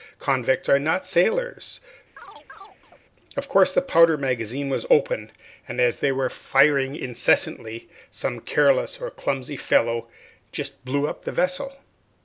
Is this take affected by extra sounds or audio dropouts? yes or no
yes